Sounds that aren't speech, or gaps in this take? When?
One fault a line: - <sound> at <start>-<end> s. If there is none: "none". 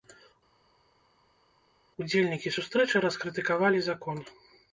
none